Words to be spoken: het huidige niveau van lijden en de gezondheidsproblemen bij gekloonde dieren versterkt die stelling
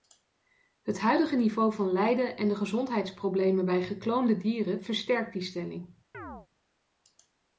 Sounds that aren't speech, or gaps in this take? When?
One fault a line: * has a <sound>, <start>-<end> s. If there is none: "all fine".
* has a chirp, 6.1-6.5 s